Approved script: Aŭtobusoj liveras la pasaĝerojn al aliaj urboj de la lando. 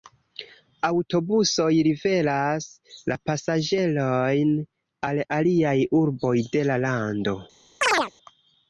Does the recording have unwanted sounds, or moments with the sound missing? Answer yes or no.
yes